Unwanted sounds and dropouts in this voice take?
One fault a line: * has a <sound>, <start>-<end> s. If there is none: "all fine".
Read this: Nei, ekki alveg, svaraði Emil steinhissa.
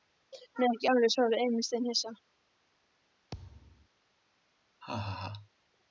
* has a thud, 3.3-3.9 s
* has a laugh, 4.8-5.5 s